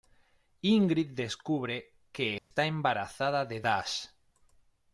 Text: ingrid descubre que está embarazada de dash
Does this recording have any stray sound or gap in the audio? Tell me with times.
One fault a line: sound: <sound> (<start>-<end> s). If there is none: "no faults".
sound: dropout (2.4-2.5 s)